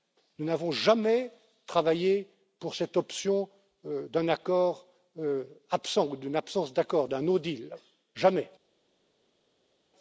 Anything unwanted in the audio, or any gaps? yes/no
no